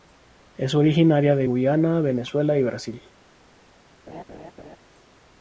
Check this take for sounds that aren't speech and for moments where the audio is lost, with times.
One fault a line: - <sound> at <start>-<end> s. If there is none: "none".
- laugh at 4.1-4.8 s